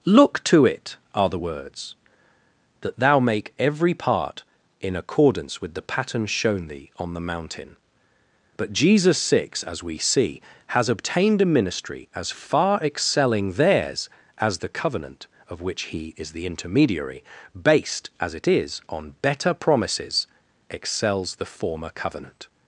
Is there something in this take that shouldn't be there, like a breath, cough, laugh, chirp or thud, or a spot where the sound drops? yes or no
no